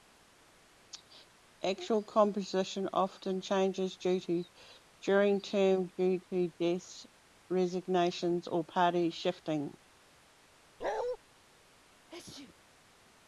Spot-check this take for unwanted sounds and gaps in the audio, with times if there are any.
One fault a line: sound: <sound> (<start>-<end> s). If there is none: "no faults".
sound: bark (10.8-11.2 s)
sound: sneeze (12.1-12.6 s)